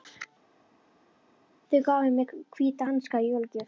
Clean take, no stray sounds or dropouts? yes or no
yes